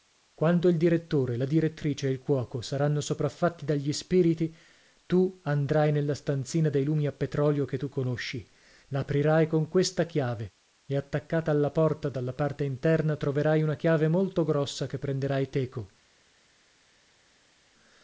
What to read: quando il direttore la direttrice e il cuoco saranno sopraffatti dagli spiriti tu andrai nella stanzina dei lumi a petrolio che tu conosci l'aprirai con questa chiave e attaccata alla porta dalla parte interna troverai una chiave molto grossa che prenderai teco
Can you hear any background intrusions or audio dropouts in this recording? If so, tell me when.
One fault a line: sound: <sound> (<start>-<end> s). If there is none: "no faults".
no faults